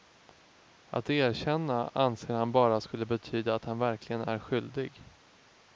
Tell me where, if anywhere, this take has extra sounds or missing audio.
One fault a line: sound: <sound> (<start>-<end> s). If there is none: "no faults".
no faults